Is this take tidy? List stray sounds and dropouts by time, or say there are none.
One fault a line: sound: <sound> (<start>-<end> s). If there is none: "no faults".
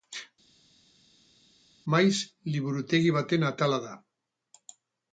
no faults